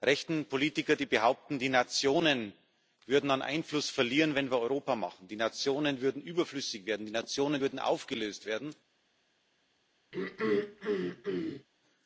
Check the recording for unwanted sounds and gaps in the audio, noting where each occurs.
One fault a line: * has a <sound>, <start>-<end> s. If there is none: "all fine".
* has a throat clearing, 10.1-11.7 s